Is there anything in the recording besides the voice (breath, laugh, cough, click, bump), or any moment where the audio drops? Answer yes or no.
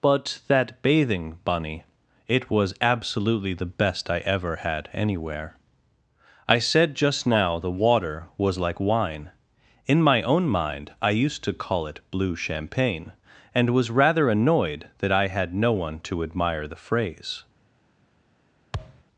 yes